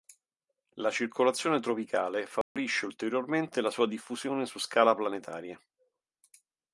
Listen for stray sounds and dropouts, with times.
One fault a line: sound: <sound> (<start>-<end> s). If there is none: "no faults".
sound: dropout (2.4-2.6 s)